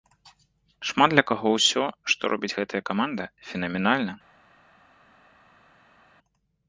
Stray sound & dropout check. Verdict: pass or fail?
pass